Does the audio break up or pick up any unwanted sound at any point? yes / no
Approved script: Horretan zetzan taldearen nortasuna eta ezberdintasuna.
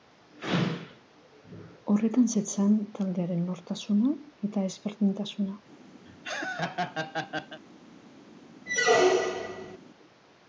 yes